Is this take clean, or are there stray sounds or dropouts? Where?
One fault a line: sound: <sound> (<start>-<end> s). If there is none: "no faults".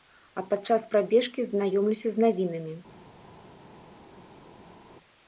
no faults